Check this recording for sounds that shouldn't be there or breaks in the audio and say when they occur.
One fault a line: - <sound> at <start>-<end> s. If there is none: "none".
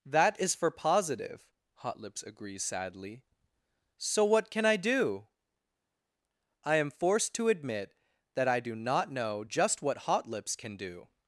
none